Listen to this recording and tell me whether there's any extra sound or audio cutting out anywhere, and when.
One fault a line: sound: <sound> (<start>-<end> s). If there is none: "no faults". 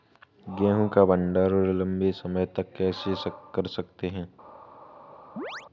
sound: chirp (5.4-5.7 s)